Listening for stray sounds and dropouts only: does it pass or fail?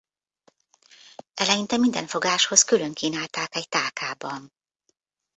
pass